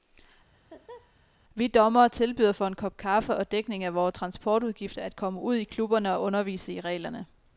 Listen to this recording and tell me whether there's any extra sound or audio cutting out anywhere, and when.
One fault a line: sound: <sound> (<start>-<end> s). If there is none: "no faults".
sound: laugh (0.5-1.1 s)